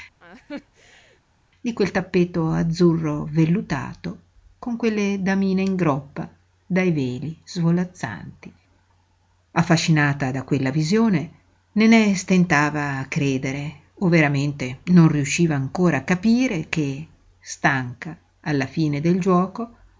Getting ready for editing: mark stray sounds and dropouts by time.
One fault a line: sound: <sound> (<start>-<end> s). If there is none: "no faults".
sound: laugh (0.2-1.2 s)